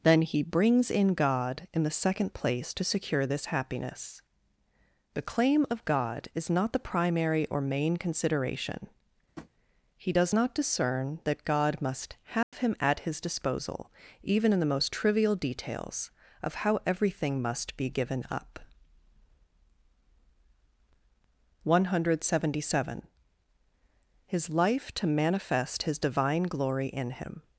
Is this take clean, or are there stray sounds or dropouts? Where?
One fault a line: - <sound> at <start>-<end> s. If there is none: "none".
- tap at 9.4-9.5 s
- dropout at 12.4-12.5 s